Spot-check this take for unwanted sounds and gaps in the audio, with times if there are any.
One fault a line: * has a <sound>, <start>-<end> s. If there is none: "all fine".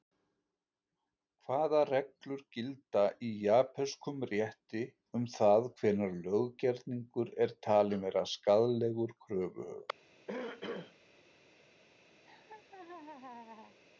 * has a throat clearing, 10.3-10.9 s
* has a laugh, 12.2-13.8 s